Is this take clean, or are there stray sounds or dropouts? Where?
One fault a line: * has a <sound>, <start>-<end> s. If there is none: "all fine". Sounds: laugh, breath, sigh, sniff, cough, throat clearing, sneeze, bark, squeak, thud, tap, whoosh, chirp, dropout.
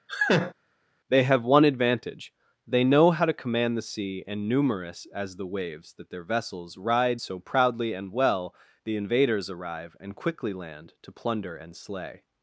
* has a laugh, 0.1-0.5 s